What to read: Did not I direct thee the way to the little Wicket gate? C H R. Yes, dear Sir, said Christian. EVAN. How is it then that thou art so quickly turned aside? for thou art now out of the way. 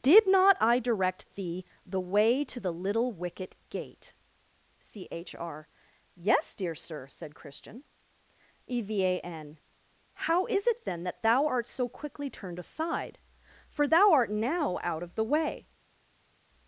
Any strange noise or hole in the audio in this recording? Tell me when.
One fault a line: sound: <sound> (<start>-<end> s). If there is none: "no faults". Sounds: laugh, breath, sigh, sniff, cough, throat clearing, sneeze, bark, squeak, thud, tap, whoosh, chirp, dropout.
no faults